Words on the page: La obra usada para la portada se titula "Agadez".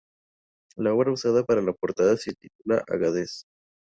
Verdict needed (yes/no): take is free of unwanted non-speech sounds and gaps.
yes